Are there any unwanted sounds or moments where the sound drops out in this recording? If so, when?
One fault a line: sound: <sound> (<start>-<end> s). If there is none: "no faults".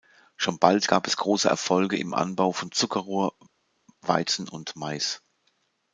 no faults